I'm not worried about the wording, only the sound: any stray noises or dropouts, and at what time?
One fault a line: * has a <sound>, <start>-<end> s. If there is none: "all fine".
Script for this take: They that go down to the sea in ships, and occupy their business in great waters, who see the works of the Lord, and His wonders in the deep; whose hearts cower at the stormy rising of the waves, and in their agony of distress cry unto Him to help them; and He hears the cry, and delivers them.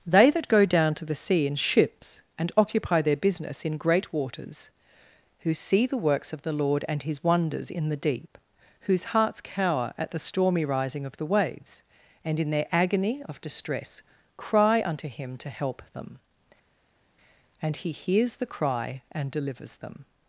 all fine